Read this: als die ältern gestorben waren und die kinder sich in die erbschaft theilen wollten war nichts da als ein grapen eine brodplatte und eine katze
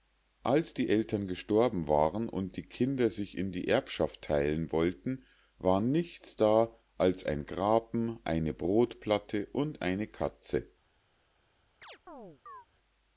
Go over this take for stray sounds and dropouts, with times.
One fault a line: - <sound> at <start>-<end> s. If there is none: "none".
- chirp at 11.8-12.7 s